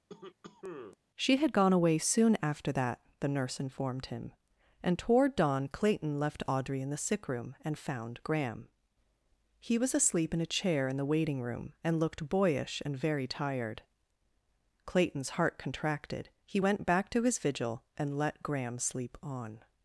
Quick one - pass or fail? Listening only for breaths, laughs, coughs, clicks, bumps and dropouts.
fail